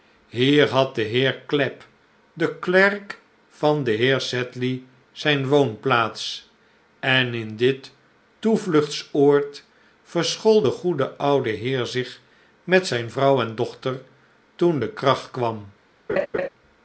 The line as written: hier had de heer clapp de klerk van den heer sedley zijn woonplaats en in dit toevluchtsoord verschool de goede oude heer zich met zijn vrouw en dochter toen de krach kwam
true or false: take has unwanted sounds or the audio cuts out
true